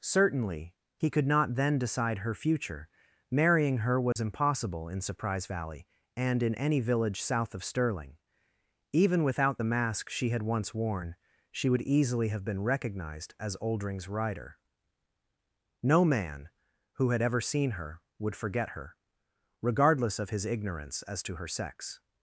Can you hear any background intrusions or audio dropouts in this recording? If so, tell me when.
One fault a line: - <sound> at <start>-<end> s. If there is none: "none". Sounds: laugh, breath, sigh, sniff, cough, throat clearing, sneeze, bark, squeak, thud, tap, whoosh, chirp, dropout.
- dropout at 4.1-4.2 s